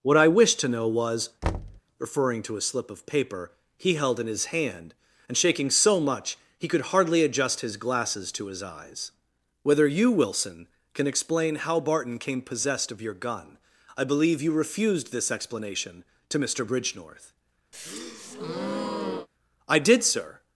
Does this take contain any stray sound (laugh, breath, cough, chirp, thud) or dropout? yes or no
yes